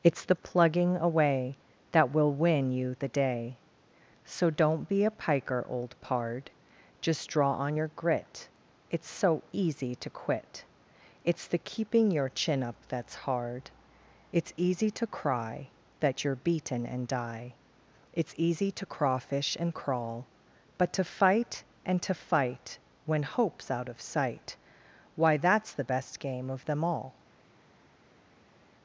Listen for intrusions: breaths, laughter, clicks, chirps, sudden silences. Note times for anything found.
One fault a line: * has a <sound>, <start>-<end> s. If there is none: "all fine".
all fine